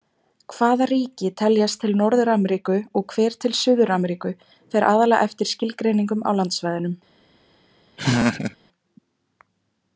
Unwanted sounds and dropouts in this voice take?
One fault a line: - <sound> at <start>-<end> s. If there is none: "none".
- laugh at 8.0-8.6 s